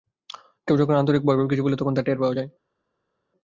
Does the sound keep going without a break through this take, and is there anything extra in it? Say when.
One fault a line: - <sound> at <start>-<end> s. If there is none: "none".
none